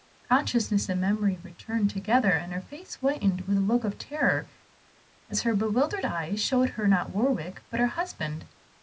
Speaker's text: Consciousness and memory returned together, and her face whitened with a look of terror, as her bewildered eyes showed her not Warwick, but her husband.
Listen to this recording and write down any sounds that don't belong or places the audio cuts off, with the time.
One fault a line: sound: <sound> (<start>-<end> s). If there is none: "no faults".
no faults